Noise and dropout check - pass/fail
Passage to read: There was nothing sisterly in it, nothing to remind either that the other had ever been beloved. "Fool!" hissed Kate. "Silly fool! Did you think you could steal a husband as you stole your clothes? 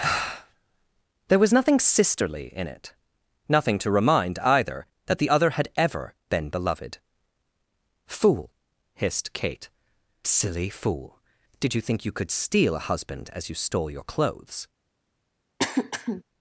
fail